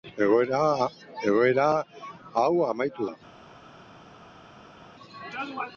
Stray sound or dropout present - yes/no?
no